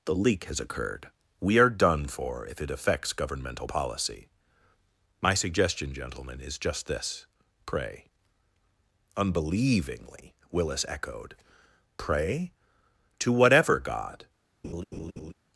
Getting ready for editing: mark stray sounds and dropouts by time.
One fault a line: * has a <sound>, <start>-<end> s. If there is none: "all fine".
* has a laugh, 14.6-15.3 s